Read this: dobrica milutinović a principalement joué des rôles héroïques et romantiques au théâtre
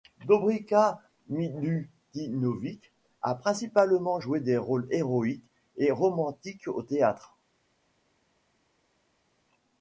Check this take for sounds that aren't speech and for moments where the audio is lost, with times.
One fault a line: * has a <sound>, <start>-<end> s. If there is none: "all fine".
all fine